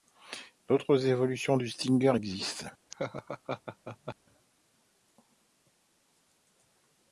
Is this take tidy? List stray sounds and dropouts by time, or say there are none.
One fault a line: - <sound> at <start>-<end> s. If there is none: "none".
- laugh at 2.9-4.2 s